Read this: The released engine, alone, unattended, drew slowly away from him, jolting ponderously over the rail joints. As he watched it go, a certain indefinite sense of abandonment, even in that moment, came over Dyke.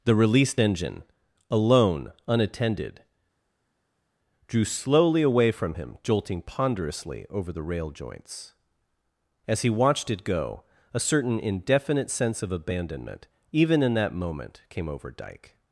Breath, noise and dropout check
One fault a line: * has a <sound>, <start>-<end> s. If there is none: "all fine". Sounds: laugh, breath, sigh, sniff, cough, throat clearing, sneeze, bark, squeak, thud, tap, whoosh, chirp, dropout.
all fine